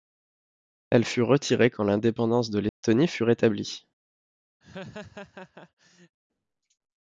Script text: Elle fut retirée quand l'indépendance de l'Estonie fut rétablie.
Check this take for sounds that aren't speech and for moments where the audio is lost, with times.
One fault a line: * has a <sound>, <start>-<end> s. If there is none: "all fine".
* has a dropout, 2.7-2.8 s
* has a laugh, 4.6-6.2 s